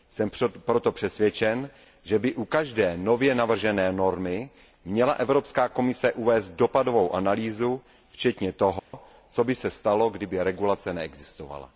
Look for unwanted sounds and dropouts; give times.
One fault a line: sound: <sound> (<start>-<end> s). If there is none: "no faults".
sound: dropout (8.8-8.9 s)